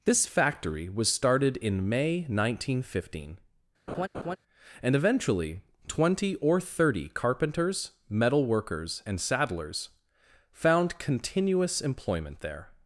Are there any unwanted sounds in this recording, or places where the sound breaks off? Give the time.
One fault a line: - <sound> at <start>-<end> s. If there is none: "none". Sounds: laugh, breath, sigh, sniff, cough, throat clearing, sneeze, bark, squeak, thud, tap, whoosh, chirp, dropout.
- laugh at 3.9-4.4 s